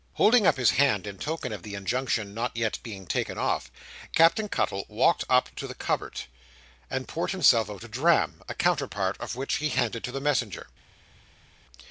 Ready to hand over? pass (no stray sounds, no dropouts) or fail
pass